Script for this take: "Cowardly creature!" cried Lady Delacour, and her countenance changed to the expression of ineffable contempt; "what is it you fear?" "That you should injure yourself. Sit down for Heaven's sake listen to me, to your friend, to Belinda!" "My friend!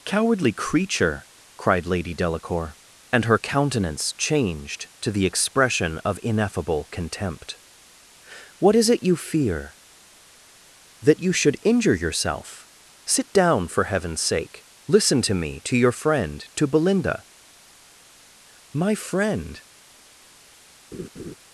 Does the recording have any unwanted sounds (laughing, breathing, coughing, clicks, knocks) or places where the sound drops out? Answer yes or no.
yes